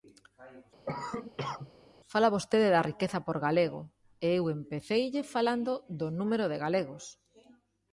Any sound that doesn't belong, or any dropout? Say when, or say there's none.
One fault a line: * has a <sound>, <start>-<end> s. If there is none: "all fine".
* has a cough, 0.9-1.7 s